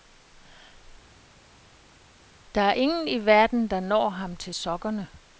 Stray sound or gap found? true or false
false